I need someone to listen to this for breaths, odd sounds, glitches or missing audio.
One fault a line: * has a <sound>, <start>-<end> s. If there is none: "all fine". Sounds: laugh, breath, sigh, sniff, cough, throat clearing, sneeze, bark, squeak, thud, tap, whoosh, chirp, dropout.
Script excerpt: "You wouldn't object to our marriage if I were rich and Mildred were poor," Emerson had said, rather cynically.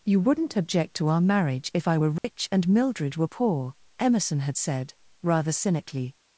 * has a dropout, 2.2-2.2 s